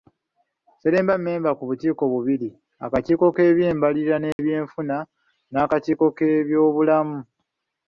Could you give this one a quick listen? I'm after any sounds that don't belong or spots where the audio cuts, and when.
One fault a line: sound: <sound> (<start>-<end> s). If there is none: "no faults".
sound: dropout (4.3-4.4 s)